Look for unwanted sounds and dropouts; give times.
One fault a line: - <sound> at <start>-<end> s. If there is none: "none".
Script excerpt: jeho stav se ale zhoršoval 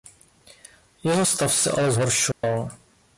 - dropout at 2.3-2.4 s